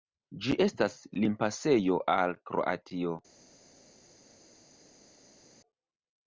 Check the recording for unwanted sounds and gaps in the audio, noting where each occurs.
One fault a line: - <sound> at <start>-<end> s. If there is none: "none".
none